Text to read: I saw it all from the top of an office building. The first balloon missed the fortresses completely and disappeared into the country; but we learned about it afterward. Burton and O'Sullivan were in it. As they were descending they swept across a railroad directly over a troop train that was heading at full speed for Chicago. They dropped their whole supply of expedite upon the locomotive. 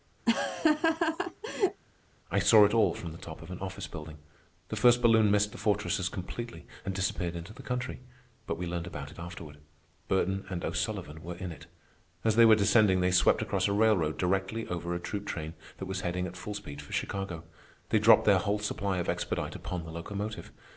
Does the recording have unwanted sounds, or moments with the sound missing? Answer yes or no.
yes